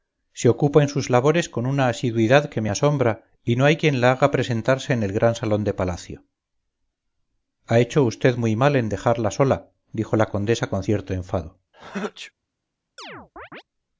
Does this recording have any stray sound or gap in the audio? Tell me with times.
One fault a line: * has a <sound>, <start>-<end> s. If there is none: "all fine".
* has a sneeze, 11.7-12.3 s
* has a chirp, 13.0-13.6 s